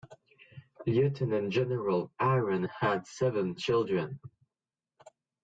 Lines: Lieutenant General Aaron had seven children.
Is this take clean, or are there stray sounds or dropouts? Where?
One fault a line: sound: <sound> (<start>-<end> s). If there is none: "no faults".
no faults